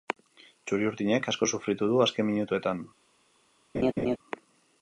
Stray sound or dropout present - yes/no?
yes